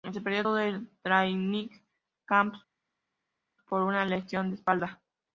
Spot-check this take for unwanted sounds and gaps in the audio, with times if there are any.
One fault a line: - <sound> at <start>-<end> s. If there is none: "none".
none